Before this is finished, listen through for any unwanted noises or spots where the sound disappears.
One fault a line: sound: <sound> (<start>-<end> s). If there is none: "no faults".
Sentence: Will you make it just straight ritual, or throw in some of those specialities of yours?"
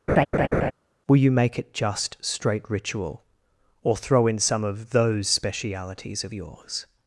sound: laugh (0.1-0.7 s)